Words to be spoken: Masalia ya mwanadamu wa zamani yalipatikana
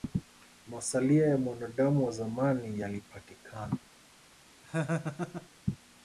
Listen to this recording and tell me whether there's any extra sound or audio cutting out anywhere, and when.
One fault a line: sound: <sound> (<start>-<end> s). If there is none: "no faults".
sound: laugh (4.6-5.5 s)